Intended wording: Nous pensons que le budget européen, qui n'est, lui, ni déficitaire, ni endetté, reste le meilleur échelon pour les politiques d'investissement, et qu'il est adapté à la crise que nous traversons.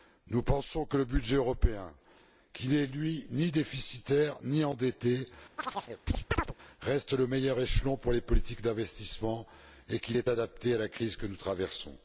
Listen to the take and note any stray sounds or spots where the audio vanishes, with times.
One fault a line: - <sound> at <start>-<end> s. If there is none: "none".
- chirp at 5.6-6.5 s